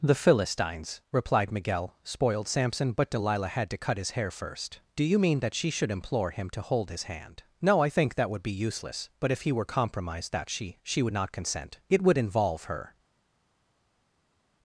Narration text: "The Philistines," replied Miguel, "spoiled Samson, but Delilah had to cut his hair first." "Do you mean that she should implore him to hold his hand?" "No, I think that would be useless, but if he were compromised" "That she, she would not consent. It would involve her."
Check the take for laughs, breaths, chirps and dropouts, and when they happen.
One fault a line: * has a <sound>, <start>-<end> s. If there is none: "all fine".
all fine